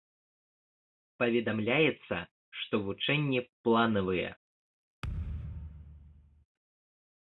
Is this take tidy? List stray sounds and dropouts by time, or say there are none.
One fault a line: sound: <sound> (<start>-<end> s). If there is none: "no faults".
sound: thud (5.0-6.5 s)